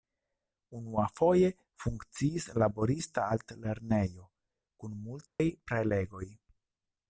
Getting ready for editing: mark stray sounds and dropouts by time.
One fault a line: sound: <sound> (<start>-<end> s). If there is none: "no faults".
sound: dropout (5.3-5.4 s)